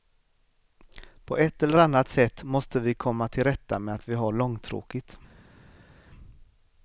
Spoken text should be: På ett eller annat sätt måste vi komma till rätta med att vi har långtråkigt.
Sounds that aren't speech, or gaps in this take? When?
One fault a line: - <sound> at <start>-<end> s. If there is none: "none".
none